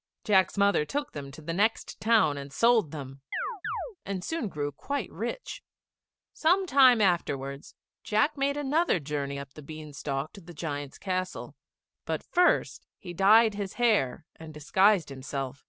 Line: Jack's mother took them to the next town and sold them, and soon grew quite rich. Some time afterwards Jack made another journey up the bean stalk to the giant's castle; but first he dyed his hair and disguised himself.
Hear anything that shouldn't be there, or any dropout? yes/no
yes